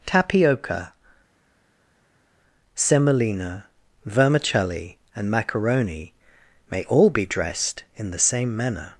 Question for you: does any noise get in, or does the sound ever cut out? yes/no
no